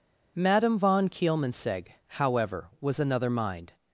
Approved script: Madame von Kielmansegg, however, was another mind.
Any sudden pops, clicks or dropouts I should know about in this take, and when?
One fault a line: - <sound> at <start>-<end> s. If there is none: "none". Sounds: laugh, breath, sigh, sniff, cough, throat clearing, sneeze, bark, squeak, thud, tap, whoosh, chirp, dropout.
none